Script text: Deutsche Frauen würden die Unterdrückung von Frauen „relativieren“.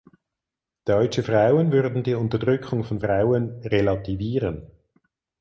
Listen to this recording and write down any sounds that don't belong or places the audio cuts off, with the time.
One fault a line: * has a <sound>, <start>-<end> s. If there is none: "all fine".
all fine